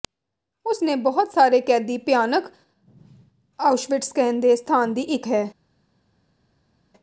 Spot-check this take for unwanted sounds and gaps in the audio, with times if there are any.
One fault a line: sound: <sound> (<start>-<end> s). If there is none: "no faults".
no faults